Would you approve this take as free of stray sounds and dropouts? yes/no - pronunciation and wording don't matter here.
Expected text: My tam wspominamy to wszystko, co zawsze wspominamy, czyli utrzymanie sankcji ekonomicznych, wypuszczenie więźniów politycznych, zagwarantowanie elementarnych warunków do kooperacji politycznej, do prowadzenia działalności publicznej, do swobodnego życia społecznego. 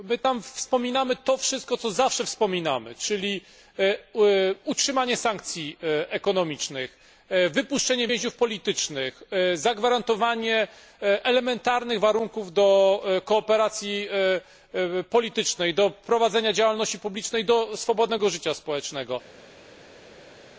yes